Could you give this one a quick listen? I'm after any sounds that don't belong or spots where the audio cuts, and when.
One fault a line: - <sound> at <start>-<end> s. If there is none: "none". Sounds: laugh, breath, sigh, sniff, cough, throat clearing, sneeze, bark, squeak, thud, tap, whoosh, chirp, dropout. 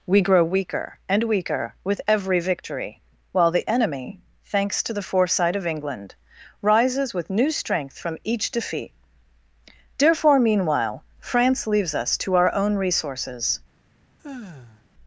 - sigh at 14.2-14.8 s